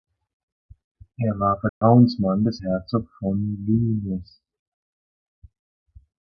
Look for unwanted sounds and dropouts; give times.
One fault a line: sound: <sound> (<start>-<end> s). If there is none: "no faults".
sound: dropout (1.7-1.8 s)